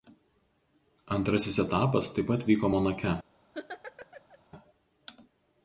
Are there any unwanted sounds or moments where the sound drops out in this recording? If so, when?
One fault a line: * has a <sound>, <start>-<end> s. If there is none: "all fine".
* has a laugh, 3.5-4.4 s